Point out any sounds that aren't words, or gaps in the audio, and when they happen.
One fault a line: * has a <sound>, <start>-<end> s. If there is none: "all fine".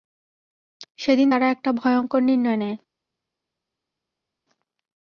all fine